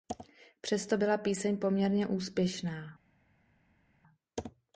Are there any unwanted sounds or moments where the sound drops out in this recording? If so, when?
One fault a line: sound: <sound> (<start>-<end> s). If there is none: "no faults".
no faults